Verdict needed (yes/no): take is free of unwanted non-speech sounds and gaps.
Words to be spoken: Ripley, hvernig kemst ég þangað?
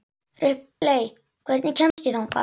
no